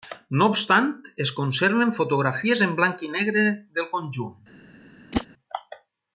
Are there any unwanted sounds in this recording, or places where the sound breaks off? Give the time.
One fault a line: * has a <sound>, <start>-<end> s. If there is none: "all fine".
* has a whoosh, 5.1-5.3 s